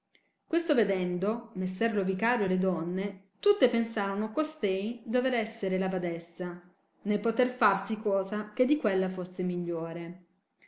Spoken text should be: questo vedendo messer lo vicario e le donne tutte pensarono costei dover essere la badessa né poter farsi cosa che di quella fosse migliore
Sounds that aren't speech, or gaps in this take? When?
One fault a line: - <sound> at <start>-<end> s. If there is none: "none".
none